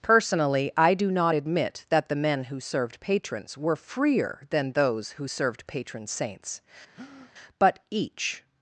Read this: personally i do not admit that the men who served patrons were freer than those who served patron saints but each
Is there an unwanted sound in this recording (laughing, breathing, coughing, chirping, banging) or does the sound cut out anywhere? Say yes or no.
yes